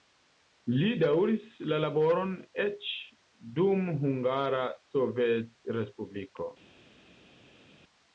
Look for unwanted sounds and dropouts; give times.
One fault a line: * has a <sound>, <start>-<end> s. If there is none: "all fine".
all fine